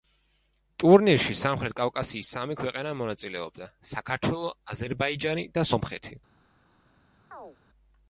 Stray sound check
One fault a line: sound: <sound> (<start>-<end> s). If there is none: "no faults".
sound: chirp (7.3-7.6 s)